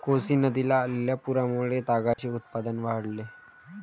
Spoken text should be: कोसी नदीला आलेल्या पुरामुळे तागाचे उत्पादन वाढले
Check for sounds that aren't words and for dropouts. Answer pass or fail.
fail